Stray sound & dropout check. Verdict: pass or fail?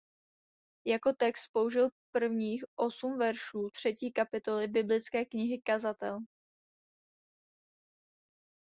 pass